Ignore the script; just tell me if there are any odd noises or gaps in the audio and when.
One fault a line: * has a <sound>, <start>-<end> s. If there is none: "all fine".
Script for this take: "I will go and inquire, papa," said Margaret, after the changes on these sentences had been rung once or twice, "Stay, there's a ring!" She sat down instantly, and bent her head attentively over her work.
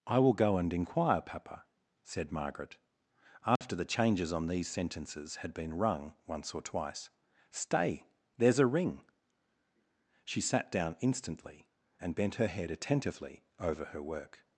* has a dropout, 3.6-3.6 s